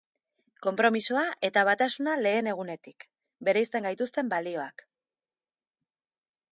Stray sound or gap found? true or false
false